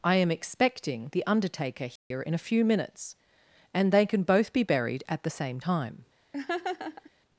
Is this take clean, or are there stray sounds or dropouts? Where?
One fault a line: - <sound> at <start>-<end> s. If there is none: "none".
- dropout at 2.0-2.1 s
- laugh at 6.3-7.1 s